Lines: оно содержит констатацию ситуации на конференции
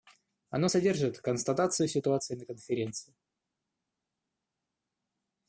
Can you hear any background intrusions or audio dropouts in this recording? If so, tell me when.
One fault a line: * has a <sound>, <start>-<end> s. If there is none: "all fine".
all fine